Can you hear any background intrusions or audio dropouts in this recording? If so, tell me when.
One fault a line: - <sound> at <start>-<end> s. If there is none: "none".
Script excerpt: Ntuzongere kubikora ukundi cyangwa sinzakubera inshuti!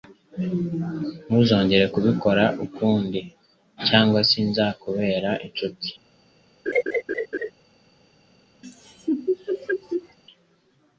- laugh at 6.7-7.5 s
- laugh at 8.6-10.2 s